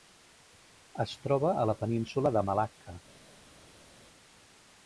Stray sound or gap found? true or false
false